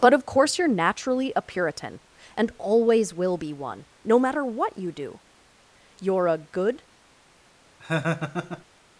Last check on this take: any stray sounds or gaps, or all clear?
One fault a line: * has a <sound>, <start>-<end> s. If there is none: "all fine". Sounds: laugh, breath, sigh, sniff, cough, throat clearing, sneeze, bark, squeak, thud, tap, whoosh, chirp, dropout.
* has a laugh, 7.8-8.6 s